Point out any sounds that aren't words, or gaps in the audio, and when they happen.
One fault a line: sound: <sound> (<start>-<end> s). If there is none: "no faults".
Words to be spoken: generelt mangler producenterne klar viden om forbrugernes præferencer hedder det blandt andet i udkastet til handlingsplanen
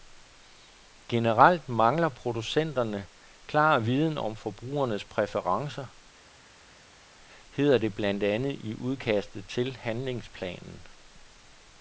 no faults